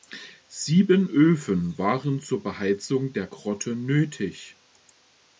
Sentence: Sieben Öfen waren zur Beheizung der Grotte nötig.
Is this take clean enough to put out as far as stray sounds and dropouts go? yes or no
yes